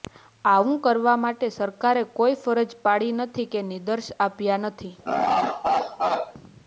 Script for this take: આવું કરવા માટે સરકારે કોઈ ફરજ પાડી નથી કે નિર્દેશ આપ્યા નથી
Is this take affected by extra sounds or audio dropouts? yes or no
yes